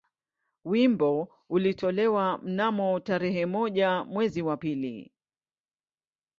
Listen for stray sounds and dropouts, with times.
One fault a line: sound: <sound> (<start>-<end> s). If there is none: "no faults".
no faults